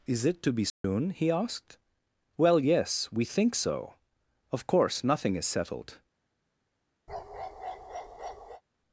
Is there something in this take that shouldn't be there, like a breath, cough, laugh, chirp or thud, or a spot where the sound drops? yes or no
yes